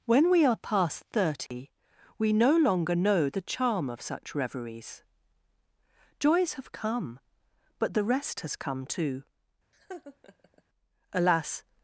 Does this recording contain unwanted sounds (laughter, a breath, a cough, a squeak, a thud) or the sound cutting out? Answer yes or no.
yes